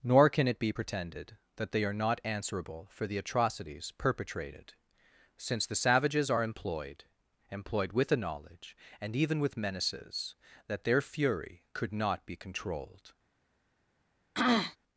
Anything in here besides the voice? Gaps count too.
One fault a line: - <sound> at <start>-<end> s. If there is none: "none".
- throat clearing at 14.3-14.8 s